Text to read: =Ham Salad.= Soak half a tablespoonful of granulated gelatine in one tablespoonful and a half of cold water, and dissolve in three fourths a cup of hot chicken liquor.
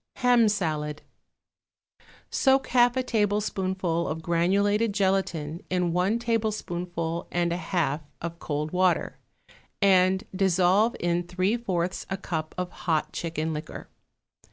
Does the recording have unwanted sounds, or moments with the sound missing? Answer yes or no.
no